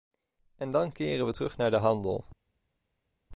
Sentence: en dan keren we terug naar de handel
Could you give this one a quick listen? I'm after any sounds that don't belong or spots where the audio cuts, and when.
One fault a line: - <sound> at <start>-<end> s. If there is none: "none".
none